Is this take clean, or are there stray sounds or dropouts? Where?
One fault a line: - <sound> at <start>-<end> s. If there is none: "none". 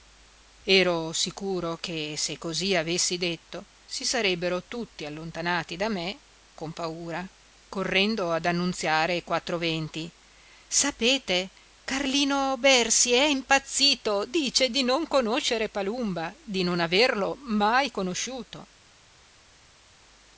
none